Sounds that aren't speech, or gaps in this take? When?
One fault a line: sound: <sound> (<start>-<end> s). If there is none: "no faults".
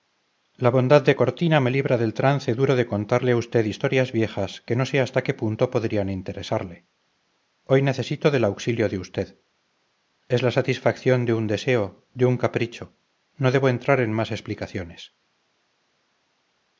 no faults